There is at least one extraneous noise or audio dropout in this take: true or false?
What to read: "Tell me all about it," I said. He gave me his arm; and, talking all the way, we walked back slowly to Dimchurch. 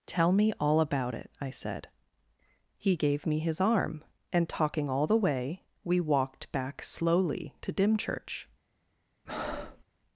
true